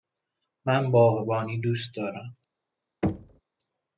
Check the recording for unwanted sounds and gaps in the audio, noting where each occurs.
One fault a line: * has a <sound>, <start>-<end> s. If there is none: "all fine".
* has a thud, 3.0-3.4 s